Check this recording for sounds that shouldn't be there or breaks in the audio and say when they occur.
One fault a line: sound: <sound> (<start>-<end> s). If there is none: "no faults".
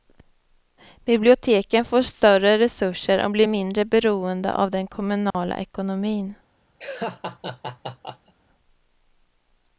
sound: dropout (5.3-5.3 s)
sound: laugh (6.8-8.3 s)